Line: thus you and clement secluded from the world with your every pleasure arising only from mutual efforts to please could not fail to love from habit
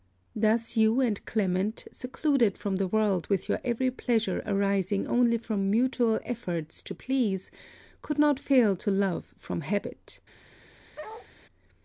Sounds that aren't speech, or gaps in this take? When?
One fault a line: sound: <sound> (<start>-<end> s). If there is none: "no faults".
sound: bark (11.0-11.3 s)